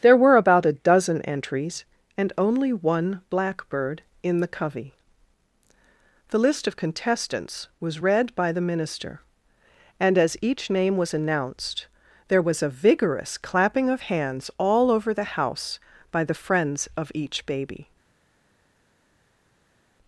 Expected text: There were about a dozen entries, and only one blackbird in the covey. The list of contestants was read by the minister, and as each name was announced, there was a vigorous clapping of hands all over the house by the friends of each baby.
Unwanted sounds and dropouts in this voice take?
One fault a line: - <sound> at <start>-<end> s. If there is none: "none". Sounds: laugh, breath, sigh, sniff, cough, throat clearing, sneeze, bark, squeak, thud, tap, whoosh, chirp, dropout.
none